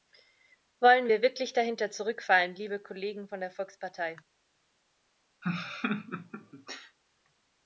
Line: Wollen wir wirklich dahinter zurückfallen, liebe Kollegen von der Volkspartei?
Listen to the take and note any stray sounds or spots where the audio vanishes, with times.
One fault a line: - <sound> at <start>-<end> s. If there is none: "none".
- laugh at 5.4-7.0 s